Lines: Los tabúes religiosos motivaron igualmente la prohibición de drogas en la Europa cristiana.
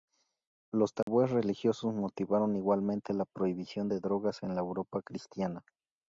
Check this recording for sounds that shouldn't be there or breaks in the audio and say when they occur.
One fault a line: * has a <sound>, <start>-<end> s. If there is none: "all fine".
* has a dropout, 1.0-1.1 s